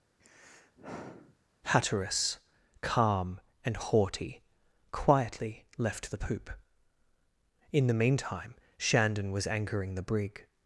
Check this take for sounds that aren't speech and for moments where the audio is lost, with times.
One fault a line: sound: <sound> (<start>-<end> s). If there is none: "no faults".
sound: sigh (0.2-1.4 s)